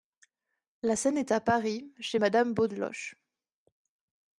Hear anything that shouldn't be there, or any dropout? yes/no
no